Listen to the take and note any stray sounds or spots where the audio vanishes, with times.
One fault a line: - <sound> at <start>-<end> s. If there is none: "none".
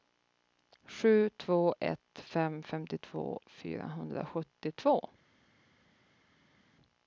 none